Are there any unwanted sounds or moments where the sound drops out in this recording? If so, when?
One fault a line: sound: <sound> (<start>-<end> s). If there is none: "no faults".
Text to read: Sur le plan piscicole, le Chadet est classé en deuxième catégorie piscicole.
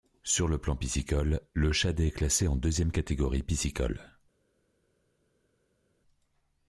no faults